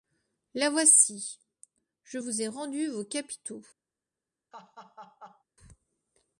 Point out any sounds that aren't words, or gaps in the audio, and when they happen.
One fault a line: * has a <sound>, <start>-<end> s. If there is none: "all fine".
* has a laugh, 4.5-5.4 s